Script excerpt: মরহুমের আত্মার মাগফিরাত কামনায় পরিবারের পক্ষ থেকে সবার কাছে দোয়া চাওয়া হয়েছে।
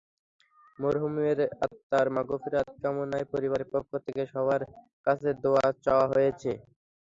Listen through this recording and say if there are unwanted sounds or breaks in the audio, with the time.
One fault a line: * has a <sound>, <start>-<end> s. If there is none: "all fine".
all fine